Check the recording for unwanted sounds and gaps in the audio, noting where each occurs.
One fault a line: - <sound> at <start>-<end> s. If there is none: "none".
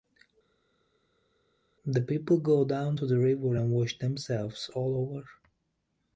none